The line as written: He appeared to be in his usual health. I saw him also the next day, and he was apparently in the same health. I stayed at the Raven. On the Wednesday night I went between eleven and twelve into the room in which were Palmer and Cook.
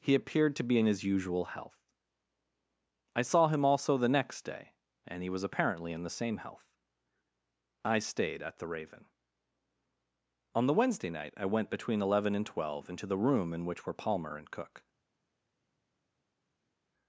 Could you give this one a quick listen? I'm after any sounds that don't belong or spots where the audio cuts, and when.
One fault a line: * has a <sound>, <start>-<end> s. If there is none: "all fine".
all fine